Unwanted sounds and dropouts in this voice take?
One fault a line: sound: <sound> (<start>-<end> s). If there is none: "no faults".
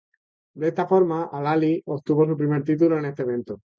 no faults